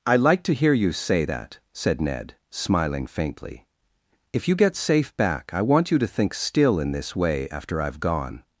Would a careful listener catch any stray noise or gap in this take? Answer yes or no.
no